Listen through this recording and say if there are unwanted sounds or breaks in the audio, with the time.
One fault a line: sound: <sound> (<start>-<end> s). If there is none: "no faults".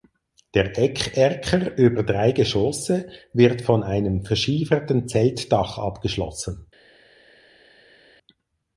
no faults